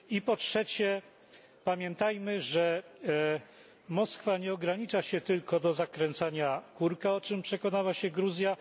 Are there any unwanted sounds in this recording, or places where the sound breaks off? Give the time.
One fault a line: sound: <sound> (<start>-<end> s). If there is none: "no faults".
no faults